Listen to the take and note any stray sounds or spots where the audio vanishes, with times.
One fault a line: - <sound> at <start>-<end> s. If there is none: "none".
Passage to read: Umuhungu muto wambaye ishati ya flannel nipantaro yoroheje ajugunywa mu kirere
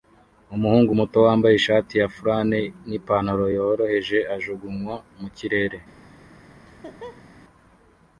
- laugh at 6.7-7.3 s